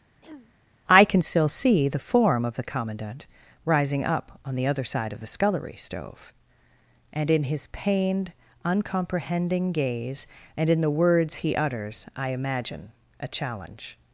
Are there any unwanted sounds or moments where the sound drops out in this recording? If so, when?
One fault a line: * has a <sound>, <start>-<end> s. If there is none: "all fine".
* has a throat clearing, 0.2-0.5 s